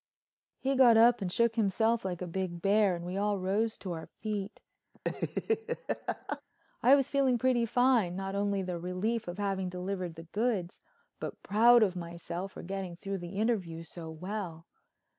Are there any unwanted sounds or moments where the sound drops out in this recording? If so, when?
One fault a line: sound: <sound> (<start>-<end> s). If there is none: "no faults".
sound: laugh (4.9-6.4 s)